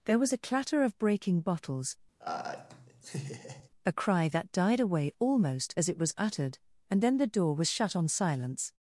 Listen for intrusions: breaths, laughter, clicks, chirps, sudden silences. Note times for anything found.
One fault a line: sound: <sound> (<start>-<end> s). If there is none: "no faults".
sound: laugh (2.2-3.7 s)